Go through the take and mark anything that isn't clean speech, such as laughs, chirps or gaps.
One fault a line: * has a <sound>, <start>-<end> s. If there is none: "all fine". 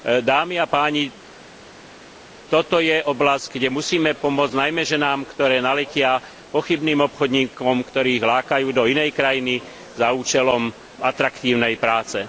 all fine